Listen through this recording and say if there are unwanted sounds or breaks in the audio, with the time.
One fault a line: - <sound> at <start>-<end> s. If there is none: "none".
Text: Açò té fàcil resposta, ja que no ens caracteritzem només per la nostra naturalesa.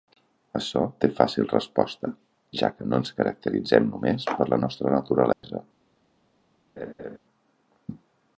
- dropout at 5.3-5.4 s
- laugh at 6.8-7.2 s